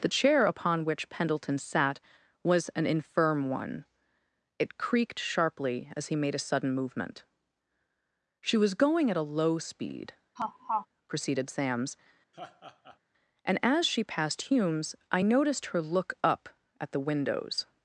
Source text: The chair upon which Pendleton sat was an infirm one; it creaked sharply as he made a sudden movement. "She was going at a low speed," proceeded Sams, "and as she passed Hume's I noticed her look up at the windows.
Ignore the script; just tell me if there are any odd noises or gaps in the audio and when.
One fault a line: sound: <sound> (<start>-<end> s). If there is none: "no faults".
sound: laugh (10.4-10.9 s)
sound: laugh (12.3-13.0 s)